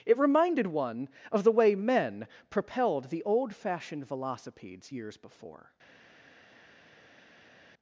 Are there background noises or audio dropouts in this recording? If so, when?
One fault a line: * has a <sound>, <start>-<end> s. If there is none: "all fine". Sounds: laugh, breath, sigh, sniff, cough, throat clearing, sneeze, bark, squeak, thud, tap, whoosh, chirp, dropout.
all fine